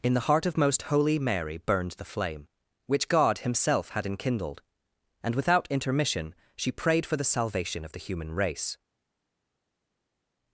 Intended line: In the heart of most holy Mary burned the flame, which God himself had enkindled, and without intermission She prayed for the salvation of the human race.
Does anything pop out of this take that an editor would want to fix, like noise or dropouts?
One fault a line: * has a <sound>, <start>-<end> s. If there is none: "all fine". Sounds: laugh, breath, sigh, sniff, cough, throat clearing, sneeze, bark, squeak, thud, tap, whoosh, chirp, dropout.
all fine